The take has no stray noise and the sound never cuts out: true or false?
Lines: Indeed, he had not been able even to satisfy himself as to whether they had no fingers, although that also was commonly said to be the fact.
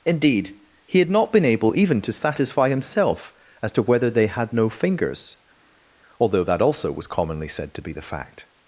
true